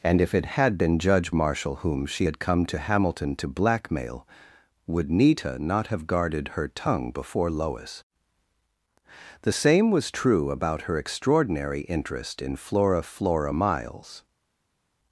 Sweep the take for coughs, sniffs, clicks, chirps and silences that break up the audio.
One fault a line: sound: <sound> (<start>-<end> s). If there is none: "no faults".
no faults